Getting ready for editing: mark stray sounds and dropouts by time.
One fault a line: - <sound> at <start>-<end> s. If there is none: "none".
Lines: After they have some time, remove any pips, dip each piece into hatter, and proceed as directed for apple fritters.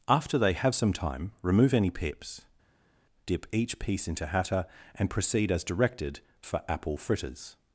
none